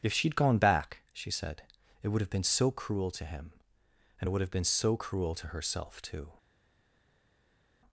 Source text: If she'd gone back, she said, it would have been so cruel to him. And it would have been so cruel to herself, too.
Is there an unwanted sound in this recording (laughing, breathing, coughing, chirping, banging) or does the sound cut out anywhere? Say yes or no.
no